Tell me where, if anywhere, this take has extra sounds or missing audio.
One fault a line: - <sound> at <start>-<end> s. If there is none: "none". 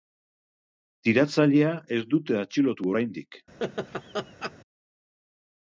- laugh at 3.6-4.5 s